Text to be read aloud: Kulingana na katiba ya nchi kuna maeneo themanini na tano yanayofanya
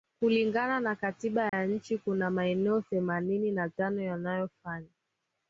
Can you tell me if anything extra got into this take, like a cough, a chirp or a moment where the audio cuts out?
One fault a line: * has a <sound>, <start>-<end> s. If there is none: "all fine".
* has a dropout, 1.5-1.5 s